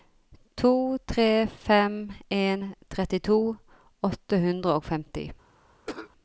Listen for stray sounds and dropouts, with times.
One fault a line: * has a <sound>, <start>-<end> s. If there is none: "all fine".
* has a cough, 5.9-6.1 s